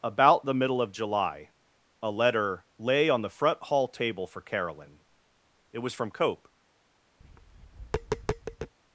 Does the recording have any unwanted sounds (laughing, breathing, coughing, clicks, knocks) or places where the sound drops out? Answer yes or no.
yes